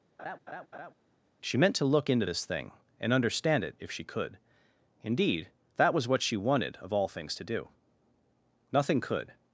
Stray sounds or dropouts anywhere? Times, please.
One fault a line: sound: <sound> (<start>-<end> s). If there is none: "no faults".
sound: laugh (0.2-0.9 s)